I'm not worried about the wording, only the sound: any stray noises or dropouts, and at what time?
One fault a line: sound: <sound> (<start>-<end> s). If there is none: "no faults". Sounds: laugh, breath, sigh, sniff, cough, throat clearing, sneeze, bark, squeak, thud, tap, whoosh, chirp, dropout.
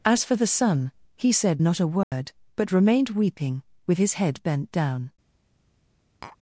sound: dropout (2.0-2.1 s)
sound: tap (6.2-6.4 s)